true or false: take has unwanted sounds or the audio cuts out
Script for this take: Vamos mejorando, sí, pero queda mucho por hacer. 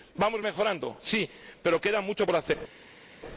false